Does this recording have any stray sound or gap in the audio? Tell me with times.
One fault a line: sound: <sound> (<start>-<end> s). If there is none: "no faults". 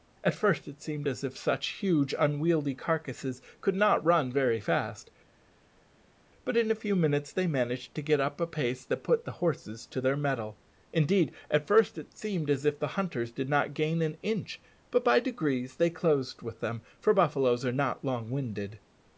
no faults